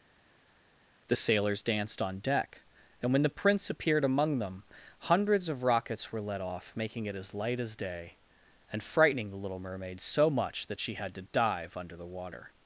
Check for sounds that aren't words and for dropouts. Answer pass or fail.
pass